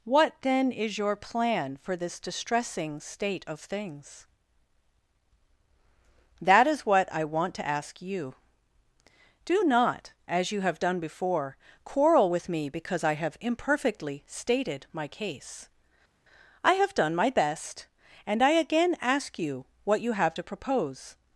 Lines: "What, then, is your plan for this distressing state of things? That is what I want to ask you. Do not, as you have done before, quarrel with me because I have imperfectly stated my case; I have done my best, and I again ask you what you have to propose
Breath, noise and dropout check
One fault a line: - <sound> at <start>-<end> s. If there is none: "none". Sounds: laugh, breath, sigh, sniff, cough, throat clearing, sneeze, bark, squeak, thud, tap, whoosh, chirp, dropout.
none